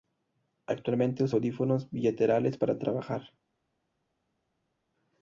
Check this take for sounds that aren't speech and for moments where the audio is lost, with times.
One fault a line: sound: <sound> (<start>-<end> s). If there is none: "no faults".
no faults